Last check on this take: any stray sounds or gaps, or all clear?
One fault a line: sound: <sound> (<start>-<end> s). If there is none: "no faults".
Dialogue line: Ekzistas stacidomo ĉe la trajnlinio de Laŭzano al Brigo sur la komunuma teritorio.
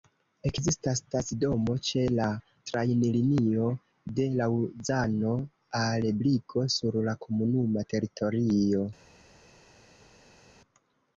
no faults